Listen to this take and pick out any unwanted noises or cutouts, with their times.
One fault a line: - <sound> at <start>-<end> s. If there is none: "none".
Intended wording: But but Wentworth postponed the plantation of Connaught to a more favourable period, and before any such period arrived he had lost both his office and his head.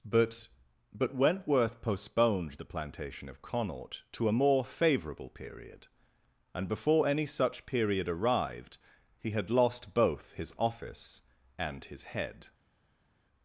none